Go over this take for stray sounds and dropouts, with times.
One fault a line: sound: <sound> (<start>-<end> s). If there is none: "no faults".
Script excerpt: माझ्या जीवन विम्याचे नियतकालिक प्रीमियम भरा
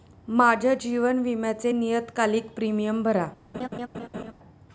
sound: laugh (3.5-4.3 s)